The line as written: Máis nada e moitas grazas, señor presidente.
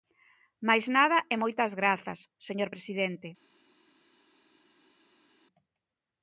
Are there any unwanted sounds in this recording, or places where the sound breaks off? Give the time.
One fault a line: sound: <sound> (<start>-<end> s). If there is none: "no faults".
no faults